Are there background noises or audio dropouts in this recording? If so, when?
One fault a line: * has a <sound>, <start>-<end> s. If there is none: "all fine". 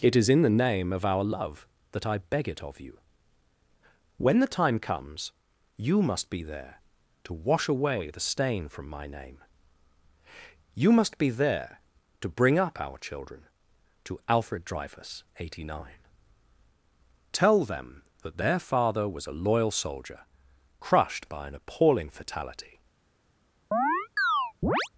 * has a chirp, 23.7-24.9 s